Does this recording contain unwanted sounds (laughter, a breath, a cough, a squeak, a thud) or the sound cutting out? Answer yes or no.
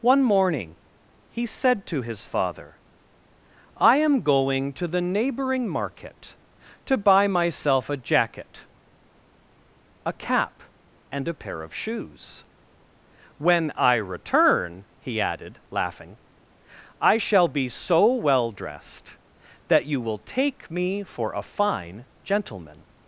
no